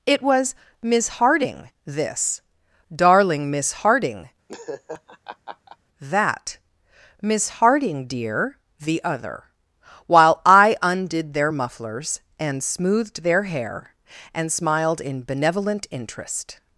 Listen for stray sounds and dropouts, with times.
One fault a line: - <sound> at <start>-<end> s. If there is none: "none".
- laugh at 4.5-5.8 s